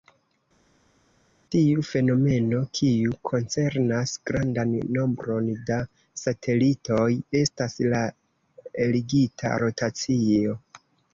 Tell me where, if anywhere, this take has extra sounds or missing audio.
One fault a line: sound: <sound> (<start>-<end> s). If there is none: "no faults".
no faults